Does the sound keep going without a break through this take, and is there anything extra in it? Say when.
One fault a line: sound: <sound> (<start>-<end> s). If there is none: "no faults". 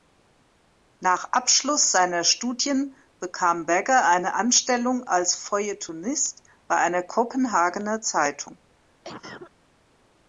sound: cough (9.0-9.5 s)